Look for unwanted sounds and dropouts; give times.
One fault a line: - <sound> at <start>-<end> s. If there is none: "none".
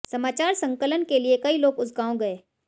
none